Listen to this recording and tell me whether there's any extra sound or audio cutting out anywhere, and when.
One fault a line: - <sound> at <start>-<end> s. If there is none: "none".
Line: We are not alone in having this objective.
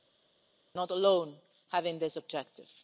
none